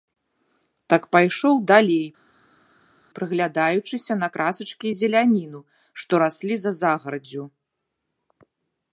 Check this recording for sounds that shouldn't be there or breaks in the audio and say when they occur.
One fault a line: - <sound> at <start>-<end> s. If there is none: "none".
none